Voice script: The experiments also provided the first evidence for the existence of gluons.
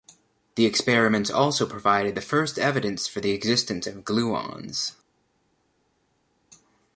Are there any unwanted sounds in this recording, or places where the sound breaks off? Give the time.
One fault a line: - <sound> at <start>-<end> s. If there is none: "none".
none